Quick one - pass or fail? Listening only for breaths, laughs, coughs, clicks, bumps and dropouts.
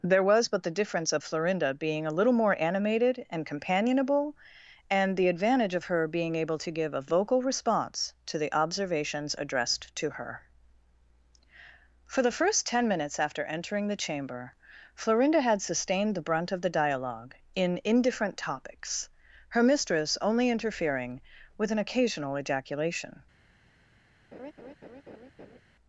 fail